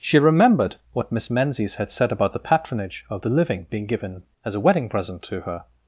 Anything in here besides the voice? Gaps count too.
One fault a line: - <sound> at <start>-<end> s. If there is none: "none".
none